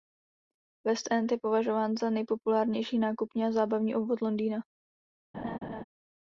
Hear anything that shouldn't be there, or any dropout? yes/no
yes